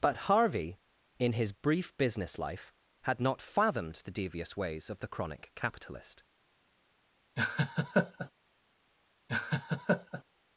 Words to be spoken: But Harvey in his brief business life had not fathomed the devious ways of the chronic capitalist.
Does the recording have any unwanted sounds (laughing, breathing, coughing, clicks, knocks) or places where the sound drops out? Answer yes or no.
yes